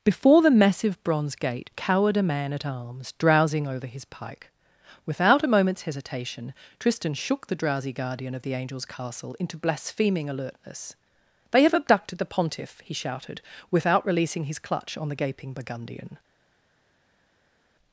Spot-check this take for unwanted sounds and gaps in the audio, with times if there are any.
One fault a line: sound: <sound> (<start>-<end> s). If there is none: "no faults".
no faults